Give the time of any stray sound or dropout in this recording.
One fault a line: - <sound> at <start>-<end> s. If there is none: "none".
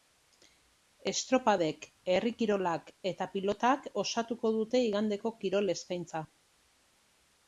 none